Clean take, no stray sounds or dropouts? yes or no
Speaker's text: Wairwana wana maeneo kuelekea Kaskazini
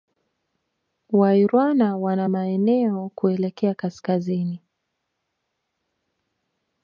yes